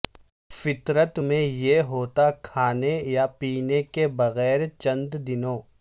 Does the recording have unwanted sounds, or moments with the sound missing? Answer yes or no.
no